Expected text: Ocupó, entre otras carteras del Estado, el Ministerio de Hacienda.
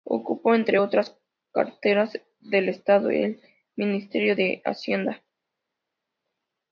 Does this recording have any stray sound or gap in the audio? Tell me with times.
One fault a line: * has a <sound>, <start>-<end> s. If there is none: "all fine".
all fine